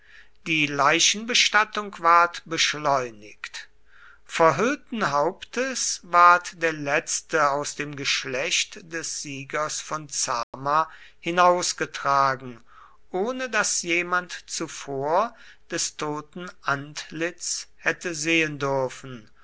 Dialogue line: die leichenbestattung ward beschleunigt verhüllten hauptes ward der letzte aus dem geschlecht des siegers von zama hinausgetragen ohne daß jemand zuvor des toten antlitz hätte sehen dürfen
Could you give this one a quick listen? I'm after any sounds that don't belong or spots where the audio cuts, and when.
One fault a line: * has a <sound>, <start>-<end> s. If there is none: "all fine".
* has a dropout, 10.4-10.5 s